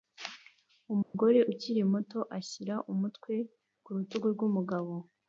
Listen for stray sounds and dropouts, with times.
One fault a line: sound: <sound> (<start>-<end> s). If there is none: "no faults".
sound: dropout (1.0-1.1 s)